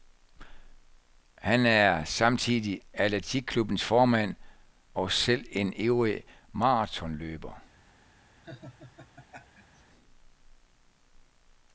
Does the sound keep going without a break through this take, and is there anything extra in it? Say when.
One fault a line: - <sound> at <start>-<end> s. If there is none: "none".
- laugh at 8.4-9.8 s